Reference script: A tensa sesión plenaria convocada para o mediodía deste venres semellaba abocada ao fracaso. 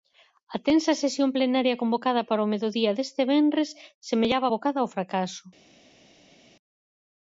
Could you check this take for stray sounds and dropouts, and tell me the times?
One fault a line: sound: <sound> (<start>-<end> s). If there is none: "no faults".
no faults